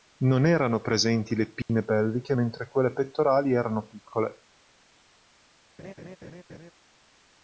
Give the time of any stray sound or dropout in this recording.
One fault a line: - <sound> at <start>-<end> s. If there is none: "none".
- dropout at 1.6-1.7 s
- laugh at 5.8-6.7 s